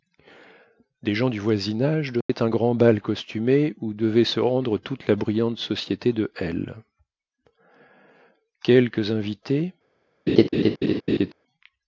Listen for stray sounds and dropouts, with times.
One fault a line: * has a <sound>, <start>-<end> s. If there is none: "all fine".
* has a dropout, 2.2-2.3 s
* has a laugh, 10.3-11.3 s